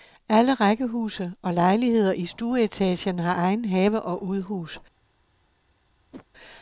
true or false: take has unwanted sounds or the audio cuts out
true